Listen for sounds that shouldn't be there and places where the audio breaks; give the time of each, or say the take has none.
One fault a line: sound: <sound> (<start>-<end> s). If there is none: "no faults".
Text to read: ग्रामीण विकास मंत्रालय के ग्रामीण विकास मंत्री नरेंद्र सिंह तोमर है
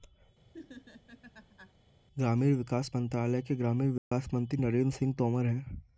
sound: laugh (0.5-1.7 s)
sound: dropout (4.0-4.1 s)